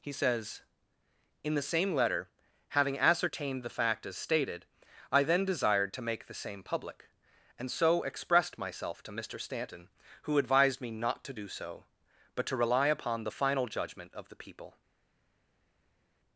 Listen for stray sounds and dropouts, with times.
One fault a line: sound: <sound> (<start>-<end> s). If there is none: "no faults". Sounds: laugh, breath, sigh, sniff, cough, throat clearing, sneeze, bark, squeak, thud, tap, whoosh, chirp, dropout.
no faults